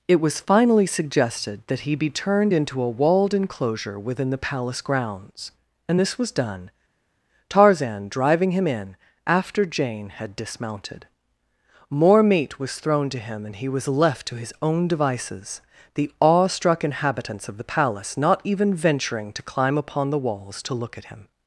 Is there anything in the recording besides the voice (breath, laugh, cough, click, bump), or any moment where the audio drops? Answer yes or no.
no